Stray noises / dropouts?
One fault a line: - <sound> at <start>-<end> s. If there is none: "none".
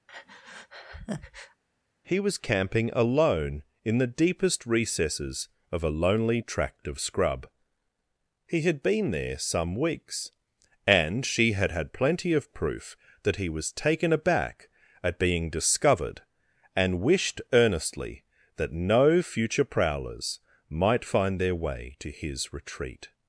- breath at 0.1-1.6 s